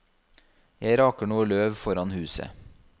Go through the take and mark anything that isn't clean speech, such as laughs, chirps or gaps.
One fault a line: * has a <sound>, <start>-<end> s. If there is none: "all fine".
all fine